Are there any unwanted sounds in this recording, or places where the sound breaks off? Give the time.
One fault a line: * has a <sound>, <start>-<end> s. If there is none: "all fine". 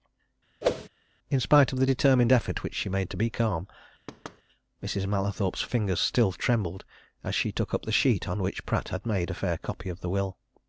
* has a whoosh, 0.6-0.9 s
* has a thud, 4.1-4.4 s